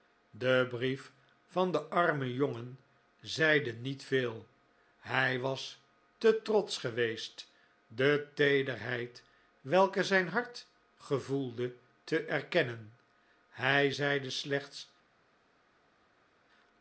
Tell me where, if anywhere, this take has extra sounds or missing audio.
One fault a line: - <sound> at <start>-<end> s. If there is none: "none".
none